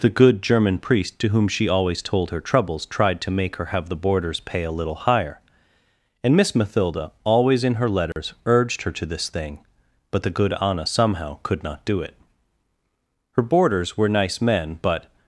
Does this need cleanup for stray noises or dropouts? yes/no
yes